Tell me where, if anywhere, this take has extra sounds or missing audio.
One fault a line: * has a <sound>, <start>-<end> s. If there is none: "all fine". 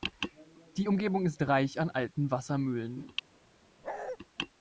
* has a bark, 3.8-4.2 s